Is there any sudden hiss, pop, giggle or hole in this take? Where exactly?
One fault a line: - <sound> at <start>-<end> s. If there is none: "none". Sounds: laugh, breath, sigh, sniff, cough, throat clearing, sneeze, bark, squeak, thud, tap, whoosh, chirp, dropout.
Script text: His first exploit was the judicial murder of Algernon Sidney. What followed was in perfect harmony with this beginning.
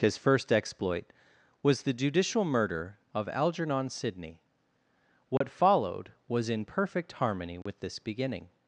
- dropout at 5.4-5.4 s
- dropout at 7.6-7.7 s